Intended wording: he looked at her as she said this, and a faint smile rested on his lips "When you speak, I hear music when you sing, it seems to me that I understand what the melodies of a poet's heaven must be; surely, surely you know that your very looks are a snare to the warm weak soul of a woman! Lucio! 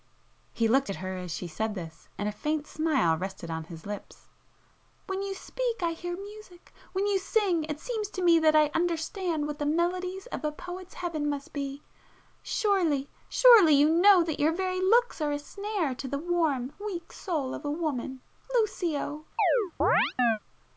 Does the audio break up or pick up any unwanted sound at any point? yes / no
yes